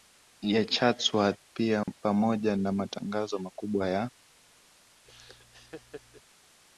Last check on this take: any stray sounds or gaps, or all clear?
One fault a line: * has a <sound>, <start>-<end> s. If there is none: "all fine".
* has a dropout, 1.8-1.9 s
* has a laugh, 5.0-6.2 s